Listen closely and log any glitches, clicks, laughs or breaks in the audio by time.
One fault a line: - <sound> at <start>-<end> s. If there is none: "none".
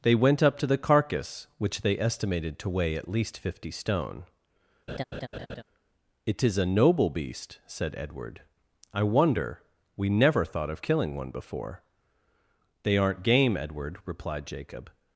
- laugh at 4.9-5.6 s